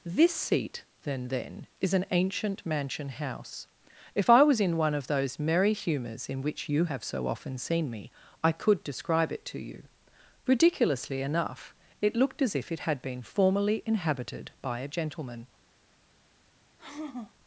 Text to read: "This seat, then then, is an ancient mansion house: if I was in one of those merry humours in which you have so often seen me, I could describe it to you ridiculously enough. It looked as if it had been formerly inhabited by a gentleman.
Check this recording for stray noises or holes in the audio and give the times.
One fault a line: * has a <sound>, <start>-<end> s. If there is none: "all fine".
* has a sigh, 16.8-17.3 s